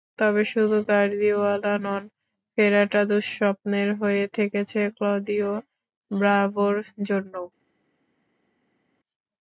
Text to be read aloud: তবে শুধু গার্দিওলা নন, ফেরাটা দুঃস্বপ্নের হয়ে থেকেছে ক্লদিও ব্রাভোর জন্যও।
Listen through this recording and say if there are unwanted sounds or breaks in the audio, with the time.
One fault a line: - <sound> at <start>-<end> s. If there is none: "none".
none